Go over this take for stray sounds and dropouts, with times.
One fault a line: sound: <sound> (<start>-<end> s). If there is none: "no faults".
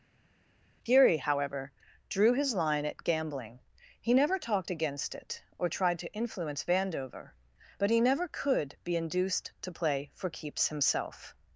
no faults